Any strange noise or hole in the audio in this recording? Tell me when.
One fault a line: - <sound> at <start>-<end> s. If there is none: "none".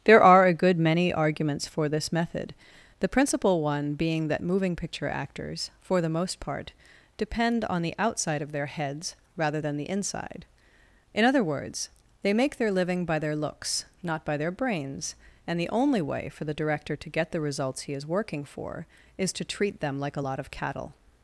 none